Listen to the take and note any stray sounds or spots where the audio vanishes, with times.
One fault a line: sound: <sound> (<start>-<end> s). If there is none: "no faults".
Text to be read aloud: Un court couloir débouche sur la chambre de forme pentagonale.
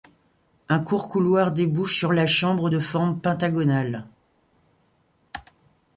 no faults